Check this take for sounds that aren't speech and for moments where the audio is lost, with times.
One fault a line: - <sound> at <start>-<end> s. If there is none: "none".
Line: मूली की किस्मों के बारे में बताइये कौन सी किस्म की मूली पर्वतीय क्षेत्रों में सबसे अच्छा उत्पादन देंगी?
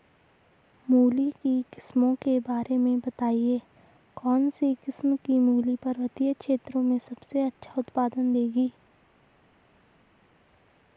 none